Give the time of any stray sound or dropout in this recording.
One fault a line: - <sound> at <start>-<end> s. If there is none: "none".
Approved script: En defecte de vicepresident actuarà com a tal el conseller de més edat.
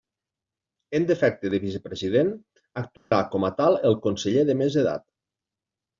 - dropout at 3.0-3.1 s